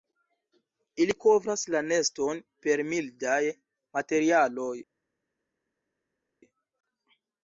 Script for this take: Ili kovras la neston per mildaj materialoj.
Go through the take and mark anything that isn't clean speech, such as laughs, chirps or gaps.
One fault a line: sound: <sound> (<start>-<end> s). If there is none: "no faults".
no faults